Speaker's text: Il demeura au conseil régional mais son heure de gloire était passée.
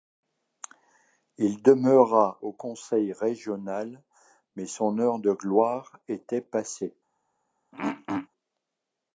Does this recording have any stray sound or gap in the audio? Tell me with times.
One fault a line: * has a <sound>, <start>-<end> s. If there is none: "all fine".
* has a throat clearing, 7.7-8.3 s